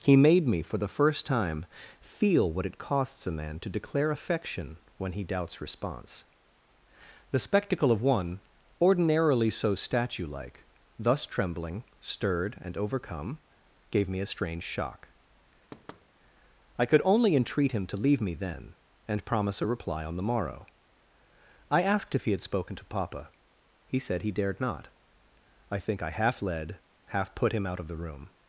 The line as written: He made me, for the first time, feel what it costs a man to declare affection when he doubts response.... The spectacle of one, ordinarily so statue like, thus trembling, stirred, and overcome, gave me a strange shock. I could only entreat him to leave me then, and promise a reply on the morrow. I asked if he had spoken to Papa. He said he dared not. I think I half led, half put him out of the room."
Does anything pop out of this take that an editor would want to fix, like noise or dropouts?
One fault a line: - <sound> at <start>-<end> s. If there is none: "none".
- thud at 15.7-16.1 s